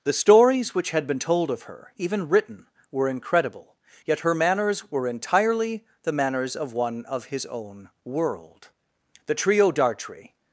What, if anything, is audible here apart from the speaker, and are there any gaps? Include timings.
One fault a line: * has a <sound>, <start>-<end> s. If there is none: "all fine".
all fine